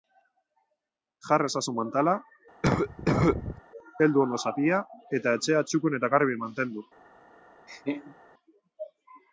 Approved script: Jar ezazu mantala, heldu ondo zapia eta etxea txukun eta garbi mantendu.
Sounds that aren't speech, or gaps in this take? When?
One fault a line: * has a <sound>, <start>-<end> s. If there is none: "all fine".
* has a cough, 2.6-3.6 s
* has a laugh, 7.7-8.2 s